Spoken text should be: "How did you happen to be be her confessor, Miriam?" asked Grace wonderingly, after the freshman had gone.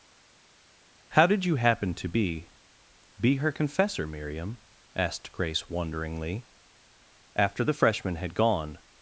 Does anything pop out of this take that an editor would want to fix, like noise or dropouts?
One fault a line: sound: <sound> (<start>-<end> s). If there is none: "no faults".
no faults